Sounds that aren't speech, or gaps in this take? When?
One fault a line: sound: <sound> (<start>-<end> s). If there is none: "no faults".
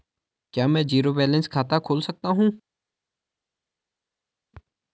no faults